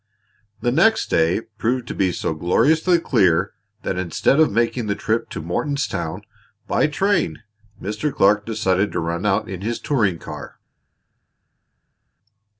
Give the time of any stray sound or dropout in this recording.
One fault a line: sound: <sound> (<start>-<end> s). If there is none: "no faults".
no faults